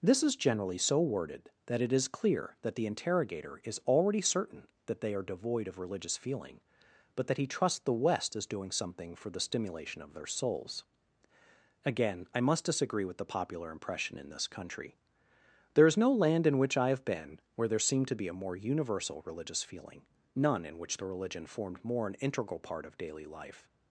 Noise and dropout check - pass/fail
pass